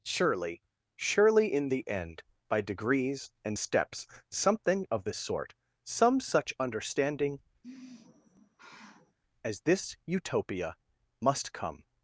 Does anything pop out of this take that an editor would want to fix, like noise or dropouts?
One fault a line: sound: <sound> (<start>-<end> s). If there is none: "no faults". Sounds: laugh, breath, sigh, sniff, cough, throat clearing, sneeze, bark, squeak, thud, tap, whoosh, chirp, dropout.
sound: sigh (7.6-9.2 s)